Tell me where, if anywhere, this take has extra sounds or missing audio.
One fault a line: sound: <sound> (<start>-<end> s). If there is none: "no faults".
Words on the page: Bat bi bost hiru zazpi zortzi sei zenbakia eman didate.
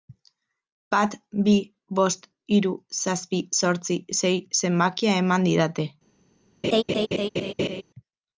sound: laugh (6.6-7.8 s)